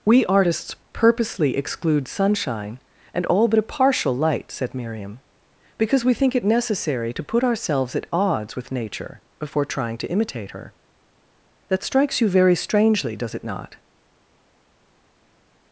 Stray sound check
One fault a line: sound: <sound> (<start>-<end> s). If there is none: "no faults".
no faults